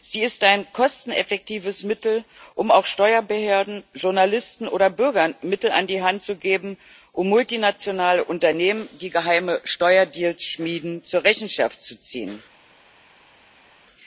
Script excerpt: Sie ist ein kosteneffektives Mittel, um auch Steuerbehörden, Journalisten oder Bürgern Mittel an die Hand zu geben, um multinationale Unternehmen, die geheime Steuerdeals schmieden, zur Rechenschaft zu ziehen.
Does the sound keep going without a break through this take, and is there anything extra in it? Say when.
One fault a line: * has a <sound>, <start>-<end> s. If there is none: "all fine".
all fine